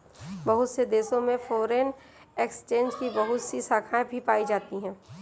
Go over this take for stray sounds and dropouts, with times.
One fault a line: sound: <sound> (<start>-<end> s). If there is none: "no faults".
no faults